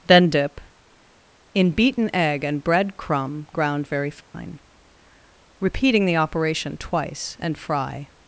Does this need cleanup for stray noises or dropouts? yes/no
yes